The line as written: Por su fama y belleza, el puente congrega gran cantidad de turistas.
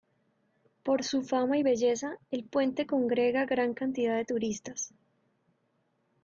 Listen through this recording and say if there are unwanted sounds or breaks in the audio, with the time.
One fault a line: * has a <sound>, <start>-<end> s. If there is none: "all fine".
all fine